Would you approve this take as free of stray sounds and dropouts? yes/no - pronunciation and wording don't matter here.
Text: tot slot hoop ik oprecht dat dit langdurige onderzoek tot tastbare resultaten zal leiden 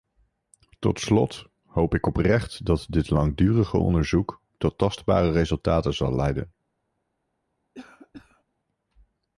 no